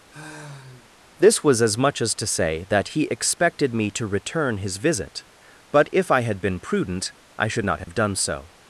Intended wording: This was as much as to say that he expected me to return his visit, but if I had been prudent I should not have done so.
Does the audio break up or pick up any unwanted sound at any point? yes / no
yes